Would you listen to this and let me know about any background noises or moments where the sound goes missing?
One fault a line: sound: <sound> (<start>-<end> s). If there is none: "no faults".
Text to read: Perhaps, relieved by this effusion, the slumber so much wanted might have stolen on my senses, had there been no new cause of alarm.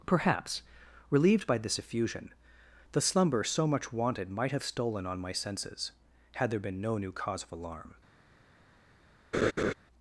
sound: laugh (9.3-9.7 s)